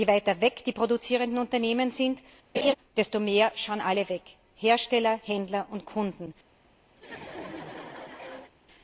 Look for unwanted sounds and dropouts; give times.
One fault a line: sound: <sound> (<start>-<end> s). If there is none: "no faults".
sound: laugh (2.5-2.7 s)
sound: laugh (7.0-8.5 s)